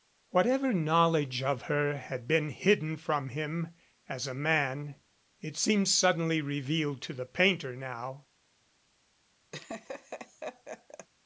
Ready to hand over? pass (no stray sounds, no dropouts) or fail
fail